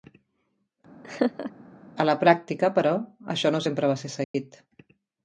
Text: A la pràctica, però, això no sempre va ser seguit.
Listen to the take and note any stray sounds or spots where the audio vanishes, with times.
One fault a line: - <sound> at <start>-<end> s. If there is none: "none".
- laugh at 1.0-1.5 s
- dropout at 4.2-4.3 s